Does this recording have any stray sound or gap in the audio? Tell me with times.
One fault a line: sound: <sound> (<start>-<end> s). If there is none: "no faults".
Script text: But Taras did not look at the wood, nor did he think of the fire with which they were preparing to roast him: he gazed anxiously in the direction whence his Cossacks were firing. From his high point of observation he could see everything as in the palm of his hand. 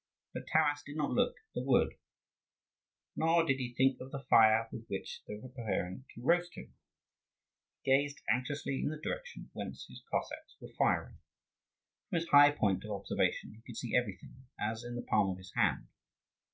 no faults